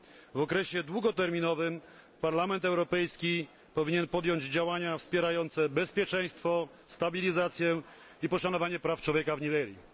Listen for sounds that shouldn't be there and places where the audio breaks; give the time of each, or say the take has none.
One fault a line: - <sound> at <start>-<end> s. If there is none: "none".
none